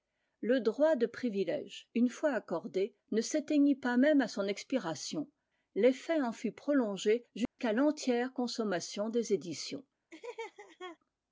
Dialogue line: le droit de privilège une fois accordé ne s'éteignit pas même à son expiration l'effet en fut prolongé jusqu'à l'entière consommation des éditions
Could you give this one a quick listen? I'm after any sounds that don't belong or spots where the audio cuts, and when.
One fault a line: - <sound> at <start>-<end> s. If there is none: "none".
- dropout at 7.5-7.6 s
- laugh at 10.1-11.0 s